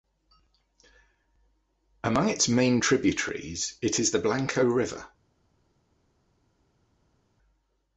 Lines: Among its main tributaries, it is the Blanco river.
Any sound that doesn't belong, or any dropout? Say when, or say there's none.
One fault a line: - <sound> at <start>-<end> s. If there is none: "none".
none